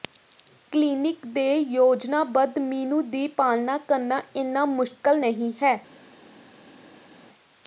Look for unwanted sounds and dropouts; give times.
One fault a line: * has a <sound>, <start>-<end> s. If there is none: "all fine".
all fine